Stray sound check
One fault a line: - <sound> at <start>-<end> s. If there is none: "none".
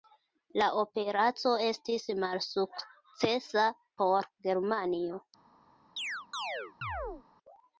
- chirp at 6.0-7.2 s